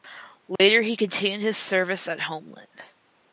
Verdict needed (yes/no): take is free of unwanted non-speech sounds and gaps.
no